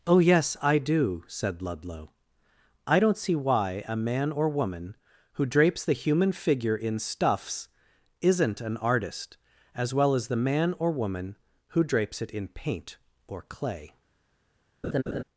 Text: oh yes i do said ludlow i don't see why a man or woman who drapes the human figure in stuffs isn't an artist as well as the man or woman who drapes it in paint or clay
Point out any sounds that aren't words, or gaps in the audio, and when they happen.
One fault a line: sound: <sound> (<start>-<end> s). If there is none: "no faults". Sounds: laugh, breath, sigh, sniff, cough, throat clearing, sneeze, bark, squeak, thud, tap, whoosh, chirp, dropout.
sound: laugh (14.8-15.2 s)